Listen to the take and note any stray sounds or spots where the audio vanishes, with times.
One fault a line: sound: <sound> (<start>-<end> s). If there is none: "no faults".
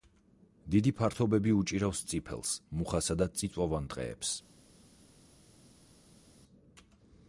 no faults